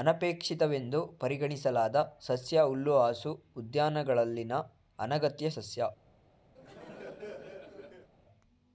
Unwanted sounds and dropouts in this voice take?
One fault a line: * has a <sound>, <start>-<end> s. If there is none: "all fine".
* has a laugh, 6.5-8.1 s